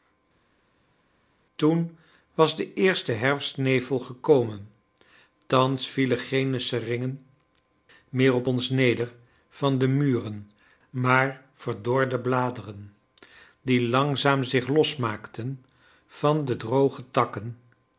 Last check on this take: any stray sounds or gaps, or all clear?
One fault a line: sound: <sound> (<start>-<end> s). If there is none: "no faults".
no faults